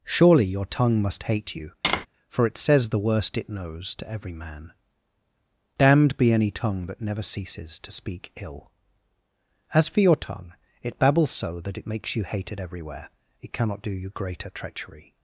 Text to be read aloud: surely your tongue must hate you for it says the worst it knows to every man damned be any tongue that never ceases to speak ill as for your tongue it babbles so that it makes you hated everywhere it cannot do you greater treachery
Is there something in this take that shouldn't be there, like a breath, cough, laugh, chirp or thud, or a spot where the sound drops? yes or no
yes